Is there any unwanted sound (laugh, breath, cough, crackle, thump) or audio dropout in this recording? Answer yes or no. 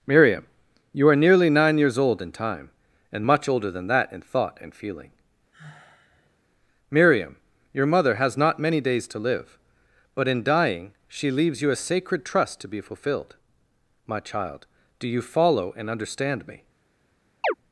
yes